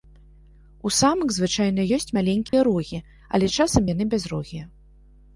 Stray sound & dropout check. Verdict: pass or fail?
fail